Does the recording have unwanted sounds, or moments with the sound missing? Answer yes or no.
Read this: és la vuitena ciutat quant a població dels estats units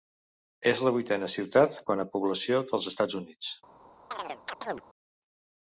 yes